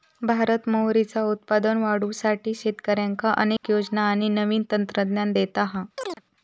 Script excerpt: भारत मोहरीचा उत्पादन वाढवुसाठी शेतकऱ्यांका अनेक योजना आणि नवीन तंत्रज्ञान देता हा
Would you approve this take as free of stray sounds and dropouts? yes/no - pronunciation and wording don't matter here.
no